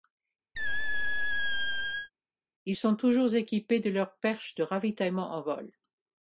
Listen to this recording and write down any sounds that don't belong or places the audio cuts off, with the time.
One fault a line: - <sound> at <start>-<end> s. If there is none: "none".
- squeak at 0.6-2.1 s